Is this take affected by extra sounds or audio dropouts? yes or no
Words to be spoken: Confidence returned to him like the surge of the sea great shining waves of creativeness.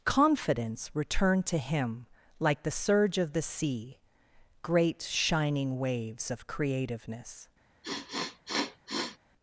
yes